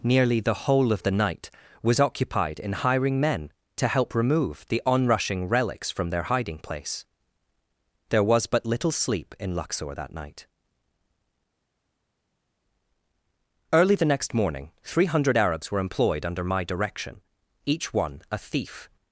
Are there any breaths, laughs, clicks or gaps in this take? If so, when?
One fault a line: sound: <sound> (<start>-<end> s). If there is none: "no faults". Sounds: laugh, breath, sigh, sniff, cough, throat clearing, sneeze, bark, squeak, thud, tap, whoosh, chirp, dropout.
no faults